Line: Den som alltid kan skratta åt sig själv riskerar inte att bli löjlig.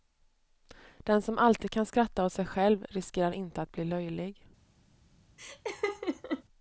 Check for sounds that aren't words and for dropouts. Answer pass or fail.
fail